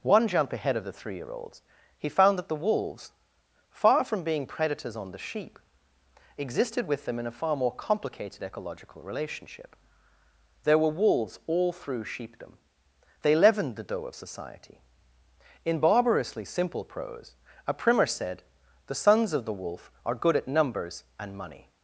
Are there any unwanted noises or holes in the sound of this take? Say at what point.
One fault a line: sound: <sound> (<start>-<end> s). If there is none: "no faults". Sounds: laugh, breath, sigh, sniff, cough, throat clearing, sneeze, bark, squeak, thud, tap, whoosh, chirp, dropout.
no faults